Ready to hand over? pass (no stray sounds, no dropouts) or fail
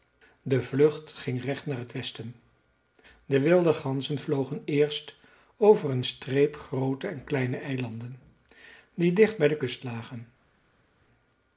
pass